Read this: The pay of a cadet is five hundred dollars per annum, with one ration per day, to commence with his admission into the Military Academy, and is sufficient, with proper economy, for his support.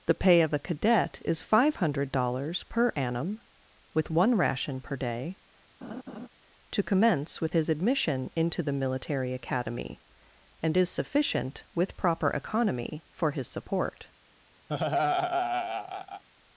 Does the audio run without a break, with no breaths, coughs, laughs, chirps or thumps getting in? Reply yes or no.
no